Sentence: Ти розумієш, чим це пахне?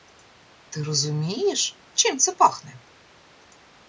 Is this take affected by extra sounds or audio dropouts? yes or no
no